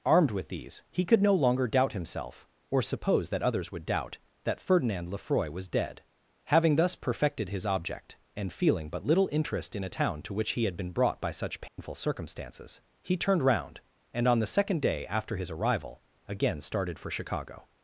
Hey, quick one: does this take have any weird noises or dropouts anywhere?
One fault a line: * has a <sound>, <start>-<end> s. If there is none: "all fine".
* has a dropout, 11.7-11.8 s